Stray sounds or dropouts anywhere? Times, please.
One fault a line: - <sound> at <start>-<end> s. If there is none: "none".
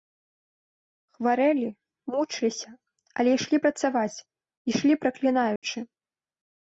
- dropout at 5.6-5.6 s